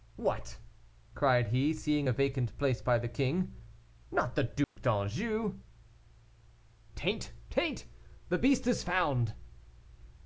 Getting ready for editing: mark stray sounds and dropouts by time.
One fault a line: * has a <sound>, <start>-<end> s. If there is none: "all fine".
* has a dropout, 4.6-4.8 s